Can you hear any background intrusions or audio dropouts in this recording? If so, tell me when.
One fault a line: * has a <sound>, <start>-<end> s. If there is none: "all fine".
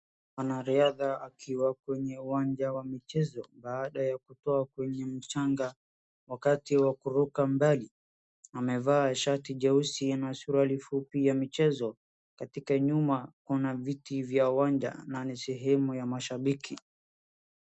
all fine